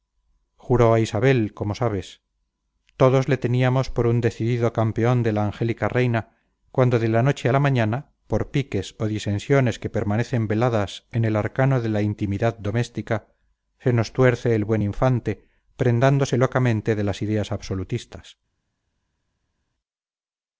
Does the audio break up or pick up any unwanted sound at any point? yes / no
no